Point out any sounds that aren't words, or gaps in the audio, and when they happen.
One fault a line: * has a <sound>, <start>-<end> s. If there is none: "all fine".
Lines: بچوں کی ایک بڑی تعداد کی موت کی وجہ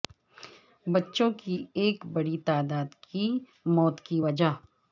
all fine